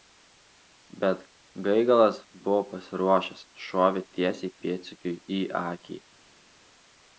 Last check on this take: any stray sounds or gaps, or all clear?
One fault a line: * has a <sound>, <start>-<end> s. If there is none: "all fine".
all fine